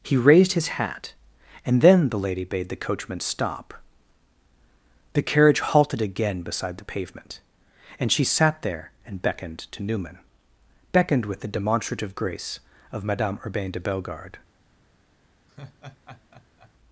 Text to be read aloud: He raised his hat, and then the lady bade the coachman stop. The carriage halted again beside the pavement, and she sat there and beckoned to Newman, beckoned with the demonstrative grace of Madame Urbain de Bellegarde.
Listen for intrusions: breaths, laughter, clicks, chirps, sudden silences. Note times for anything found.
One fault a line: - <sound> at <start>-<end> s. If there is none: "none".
- laugh at 15.5-16.7 s